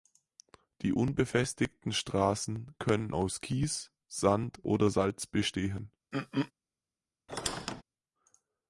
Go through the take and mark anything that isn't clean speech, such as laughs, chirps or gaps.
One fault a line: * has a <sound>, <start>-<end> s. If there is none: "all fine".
* has a throat clearing, 6.1-6.5 s
* has a squeak, 7.3-7.8 s